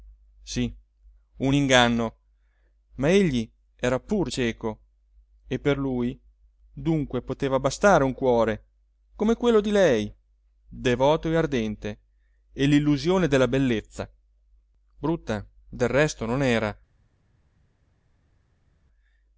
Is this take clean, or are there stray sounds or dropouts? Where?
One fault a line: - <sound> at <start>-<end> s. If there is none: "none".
none